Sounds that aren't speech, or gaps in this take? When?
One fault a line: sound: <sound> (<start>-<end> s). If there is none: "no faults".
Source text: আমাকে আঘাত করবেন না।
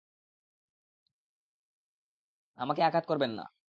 no faults